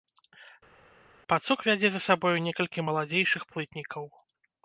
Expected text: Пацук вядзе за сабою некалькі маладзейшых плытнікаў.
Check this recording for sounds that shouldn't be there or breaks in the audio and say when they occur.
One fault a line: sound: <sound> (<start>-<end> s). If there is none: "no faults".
no faults